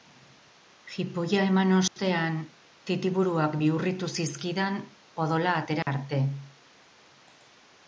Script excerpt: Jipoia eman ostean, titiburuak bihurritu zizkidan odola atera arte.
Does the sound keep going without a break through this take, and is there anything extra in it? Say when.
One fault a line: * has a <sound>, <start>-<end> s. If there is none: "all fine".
* has a dropout, 1.9-2.0 s
* has a dropout, 5.8-5.9 s